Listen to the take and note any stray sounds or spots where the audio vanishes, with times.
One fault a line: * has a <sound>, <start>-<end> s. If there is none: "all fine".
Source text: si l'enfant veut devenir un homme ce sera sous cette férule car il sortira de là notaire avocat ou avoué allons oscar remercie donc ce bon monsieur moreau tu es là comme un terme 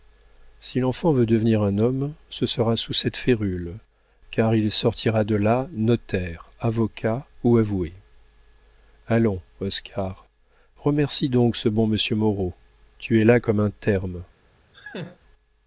* has a laugh, 14.7-15.2 s